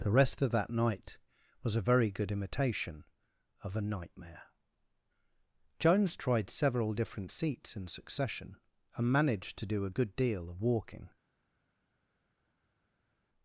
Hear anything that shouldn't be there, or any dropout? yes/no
no